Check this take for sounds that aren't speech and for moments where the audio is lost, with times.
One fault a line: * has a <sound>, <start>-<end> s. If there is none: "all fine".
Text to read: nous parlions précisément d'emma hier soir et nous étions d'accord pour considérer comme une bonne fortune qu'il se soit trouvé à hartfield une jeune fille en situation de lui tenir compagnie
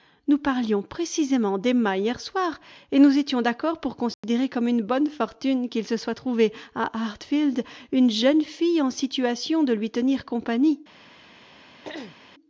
* has a dropout, 4.1-4.2 s
* has a throat clearing, 11.8-12.2 s